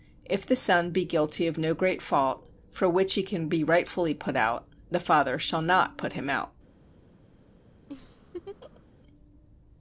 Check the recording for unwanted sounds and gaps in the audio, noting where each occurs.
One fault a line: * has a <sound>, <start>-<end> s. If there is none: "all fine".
* has a laugh, 7.9-8.8 s